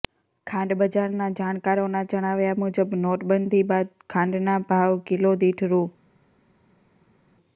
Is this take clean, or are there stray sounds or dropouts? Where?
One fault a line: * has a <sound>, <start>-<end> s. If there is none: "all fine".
all fine